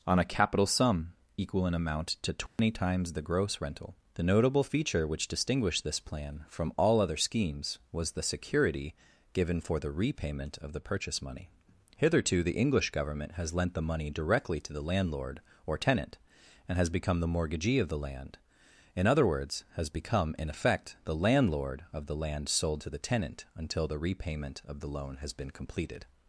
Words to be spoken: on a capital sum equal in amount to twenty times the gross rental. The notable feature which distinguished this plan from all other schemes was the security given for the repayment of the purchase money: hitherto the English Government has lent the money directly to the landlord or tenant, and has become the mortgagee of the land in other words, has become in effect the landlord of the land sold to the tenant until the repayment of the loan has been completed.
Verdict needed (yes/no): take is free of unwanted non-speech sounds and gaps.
no